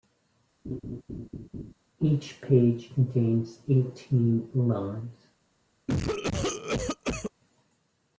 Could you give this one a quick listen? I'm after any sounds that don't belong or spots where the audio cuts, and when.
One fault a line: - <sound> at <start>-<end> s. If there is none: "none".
- laugh at 0.6-1.7 s
- cough at 5.9-7.3 s